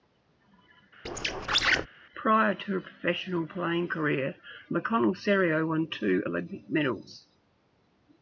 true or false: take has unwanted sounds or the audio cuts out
true